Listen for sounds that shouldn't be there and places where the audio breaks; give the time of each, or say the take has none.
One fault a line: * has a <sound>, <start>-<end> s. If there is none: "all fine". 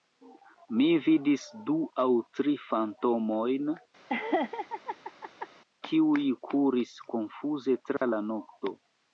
* has a laugh, 4.1-5.5 s
* has a dropout, 8.0-8.0 s